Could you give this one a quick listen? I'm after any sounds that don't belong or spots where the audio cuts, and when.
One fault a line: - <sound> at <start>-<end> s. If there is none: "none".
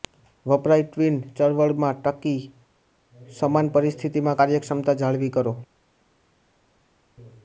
none